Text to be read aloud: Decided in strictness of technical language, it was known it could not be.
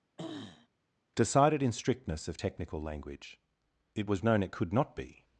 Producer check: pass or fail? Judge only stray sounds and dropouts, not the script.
fail